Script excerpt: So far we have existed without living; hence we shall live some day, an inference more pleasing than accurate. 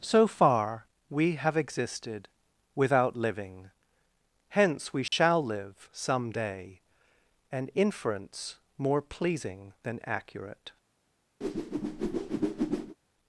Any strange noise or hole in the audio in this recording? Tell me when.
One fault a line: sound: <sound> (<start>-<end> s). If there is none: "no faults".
sound: dropout (5.1-5.1 s)
sound: whoosh (11.4-13.0 s)